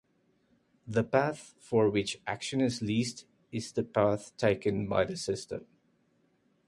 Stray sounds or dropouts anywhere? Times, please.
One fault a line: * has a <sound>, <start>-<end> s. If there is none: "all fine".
all fine